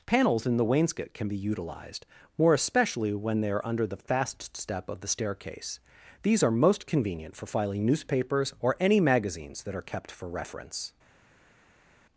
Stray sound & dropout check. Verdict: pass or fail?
pass